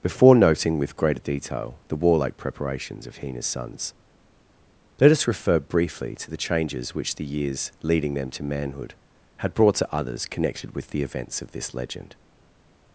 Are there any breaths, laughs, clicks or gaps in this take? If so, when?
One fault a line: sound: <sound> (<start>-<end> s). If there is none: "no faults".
no faults